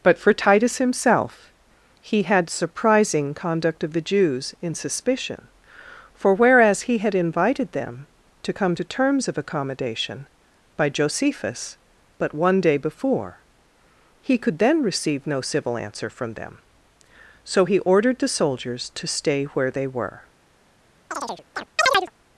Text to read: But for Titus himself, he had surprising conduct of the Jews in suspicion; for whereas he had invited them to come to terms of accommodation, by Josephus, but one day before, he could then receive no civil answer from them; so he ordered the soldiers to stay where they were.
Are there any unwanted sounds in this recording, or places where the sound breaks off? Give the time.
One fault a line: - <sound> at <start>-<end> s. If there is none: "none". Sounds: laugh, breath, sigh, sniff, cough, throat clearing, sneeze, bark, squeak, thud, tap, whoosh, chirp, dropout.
- chirp at 21.1-22.1 s